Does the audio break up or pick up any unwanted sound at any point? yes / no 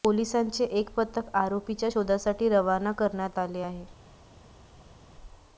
no